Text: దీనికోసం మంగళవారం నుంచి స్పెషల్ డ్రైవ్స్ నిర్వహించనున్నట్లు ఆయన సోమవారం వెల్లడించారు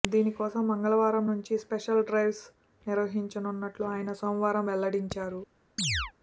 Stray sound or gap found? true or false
true